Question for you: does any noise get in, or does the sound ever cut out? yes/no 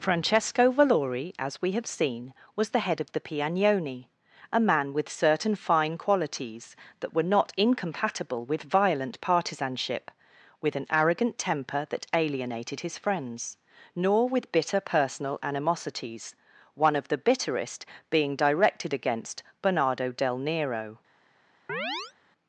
yes